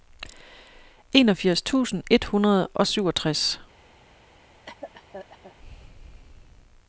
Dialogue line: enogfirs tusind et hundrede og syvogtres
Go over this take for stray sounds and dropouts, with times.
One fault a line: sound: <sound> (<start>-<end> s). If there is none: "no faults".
sound: cough (4.7-5.6 s)